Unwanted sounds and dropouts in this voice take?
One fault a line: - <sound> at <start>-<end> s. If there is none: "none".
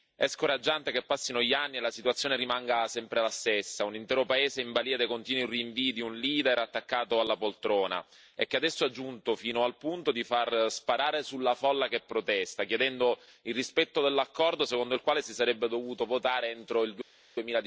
none